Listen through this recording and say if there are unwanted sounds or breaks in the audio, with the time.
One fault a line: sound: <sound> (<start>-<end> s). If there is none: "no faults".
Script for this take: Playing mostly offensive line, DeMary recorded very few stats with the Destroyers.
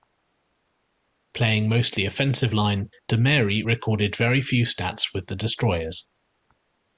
no faults